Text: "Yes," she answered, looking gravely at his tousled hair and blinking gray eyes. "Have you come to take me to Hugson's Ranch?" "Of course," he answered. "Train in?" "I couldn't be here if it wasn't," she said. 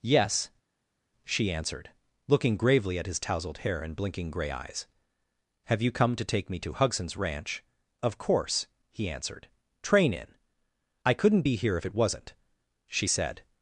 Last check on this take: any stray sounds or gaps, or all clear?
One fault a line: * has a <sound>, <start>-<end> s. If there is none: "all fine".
all fine